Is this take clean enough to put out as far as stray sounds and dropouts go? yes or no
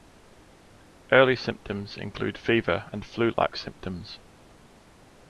no